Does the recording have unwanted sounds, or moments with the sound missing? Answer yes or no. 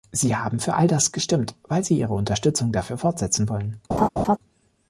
yes